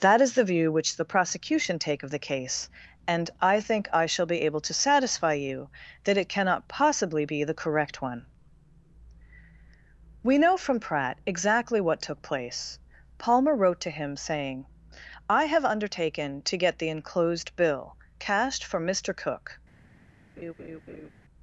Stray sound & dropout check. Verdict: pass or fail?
fail